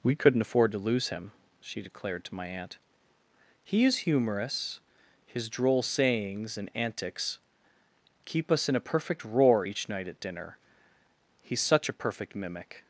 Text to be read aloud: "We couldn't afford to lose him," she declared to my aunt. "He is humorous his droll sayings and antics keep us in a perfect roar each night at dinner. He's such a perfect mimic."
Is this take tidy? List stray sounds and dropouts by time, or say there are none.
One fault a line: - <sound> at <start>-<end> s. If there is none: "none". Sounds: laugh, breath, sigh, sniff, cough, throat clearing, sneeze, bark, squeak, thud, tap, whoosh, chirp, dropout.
none